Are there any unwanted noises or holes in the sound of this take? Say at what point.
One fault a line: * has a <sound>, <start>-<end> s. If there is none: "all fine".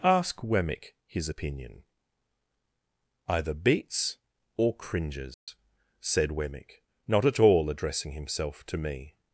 * has a dropout, 5.3-5.5 s